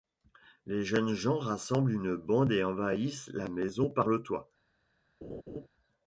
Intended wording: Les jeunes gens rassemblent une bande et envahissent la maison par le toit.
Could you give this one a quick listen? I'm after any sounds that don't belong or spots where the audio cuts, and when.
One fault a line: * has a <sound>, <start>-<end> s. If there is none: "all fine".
* has a laugh, 5.2-5.7 s